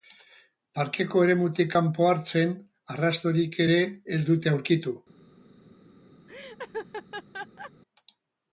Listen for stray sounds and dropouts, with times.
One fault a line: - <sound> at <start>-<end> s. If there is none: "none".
- laugh at 6.3-7.7 s